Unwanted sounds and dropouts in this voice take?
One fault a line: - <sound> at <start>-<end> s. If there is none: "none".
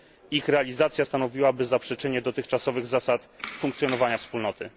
none